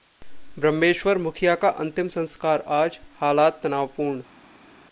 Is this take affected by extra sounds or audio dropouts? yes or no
no